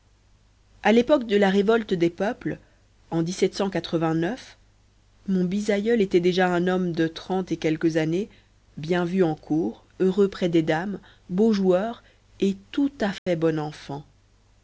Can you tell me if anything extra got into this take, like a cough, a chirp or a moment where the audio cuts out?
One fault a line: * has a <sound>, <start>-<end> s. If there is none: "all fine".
* has a dropout, 13.2-13.3 s